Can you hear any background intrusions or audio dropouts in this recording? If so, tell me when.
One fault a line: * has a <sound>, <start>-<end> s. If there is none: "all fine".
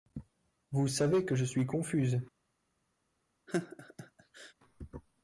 * has a laugh, 3.5-4.5 s